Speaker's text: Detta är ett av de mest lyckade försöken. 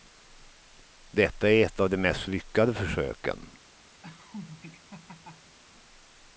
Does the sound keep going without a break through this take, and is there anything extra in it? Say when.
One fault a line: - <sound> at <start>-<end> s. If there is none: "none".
- laugh at 4.0-5.6 s